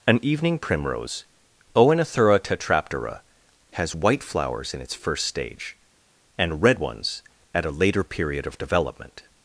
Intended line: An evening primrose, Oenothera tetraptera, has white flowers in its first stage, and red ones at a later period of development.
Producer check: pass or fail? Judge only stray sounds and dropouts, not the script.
pass